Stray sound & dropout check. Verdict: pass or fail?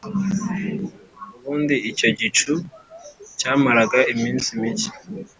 pass